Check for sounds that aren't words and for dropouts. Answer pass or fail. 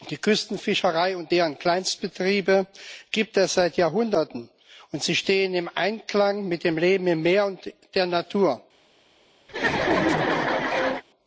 fail